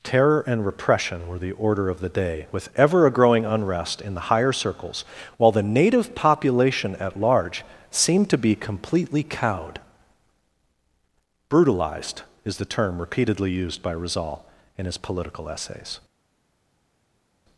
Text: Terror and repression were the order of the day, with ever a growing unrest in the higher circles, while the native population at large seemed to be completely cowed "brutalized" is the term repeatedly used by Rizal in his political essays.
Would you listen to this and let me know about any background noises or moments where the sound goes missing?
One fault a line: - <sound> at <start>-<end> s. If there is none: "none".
none